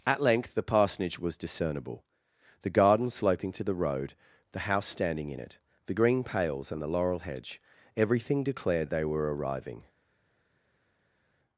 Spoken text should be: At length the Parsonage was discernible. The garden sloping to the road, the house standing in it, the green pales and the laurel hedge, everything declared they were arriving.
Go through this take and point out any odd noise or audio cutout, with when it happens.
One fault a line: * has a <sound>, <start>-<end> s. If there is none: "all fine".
all fine